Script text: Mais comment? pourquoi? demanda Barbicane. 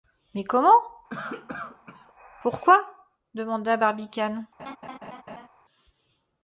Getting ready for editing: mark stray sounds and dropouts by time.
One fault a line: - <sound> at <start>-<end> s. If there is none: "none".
- cough at 1.1-2.1 s
- laugh at 4.6-5.5 s